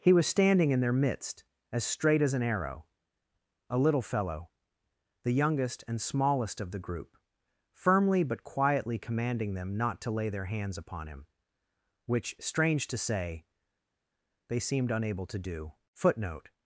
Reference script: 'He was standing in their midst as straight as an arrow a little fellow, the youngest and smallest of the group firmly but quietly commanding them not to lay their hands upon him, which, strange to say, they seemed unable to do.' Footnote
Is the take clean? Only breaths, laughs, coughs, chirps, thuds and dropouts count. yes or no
yes